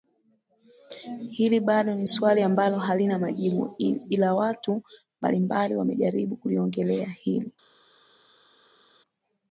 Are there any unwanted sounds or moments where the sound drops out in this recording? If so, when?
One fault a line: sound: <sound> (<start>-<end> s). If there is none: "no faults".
no faults